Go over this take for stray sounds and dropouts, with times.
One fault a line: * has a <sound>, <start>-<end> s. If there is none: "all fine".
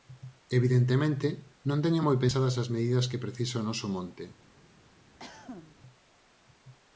* has a cough, 5.2-5.8 s